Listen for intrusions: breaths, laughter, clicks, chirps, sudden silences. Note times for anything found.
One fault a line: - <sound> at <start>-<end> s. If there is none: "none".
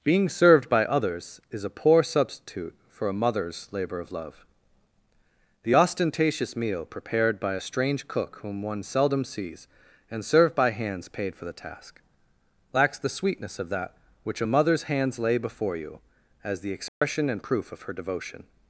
- dropout at 16.9-17.0 s